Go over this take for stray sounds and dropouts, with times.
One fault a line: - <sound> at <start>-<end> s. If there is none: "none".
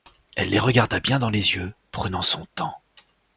none